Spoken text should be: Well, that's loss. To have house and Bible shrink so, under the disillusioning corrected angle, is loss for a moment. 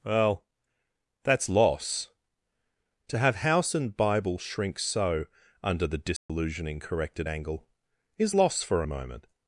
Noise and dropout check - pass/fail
fail